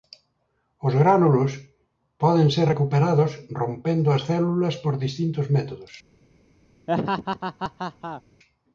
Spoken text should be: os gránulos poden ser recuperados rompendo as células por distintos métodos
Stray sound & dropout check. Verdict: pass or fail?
fail